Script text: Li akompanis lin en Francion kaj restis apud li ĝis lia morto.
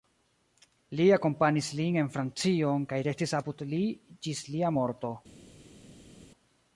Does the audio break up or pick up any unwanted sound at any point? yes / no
no